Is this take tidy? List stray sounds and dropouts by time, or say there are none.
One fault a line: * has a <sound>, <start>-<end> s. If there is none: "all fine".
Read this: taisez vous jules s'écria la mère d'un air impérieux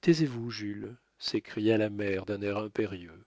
all fine